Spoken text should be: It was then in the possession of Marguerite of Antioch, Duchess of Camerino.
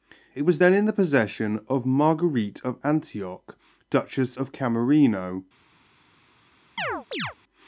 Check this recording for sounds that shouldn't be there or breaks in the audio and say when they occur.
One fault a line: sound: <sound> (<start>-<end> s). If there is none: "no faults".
sound: chirp (6.8-7.4 s)